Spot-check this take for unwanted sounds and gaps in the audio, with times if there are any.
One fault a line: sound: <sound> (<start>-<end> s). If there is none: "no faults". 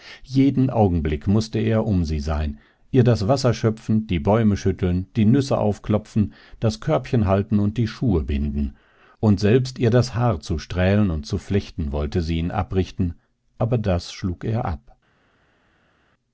no faults